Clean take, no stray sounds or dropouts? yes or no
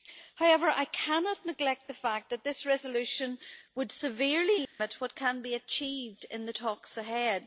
no